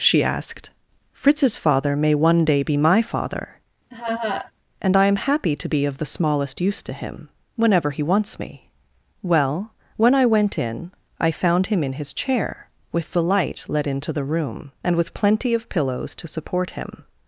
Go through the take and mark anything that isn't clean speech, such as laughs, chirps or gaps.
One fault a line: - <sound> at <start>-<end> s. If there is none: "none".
- laugh at 3.9-4.5 s